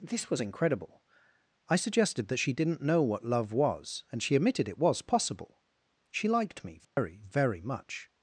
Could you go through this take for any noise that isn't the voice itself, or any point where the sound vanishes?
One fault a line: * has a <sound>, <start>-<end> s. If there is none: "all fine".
* has a dropout, 6.8-7.0 s